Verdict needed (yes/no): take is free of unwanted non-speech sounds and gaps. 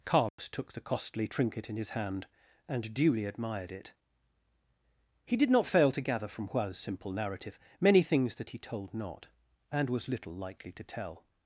no